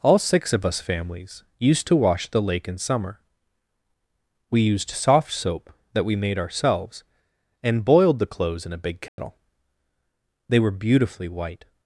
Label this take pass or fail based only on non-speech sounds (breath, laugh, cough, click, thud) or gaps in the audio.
fail